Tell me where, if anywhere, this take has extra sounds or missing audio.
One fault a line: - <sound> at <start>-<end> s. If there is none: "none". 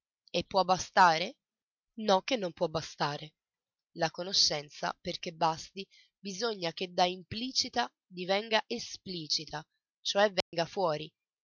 - dropout at 10.4-10.5 s